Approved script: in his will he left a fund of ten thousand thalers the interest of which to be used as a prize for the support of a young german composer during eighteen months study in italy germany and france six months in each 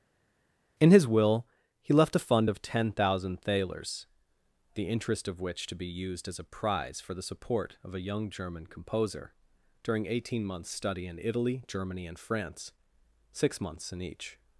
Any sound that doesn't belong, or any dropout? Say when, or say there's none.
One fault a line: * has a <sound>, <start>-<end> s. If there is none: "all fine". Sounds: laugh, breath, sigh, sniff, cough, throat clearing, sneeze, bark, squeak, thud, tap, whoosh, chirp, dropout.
all fine